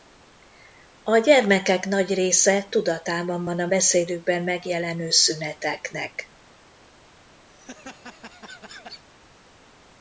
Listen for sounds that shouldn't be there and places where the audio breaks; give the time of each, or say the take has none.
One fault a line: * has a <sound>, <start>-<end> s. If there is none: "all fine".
* has a laugh, 7.5-9.0 s